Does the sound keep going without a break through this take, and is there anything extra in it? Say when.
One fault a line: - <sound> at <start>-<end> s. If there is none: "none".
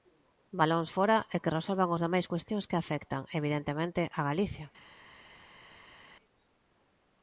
none